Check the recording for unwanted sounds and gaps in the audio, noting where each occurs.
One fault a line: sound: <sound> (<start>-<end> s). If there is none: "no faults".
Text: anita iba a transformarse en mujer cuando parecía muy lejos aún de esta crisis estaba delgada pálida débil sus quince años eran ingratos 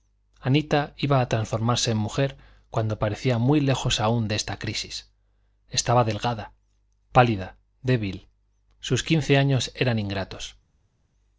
no faults